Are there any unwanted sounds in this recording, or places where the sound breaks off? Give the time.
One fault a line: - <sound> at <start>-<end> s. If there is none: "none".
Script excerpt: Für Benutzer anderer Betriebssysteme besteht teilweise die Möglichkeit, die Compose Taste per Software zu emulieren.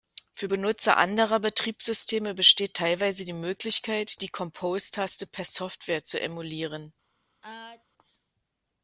- sneeze at 7.4-7.8 s